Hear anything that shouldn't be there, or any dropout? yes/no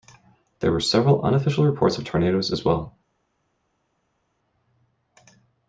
no